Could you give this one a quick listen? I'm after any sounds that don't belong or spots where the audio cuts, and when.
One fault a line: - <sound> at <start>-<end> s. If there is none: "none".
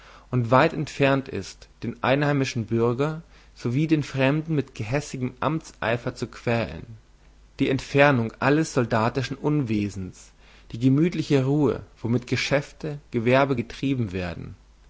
none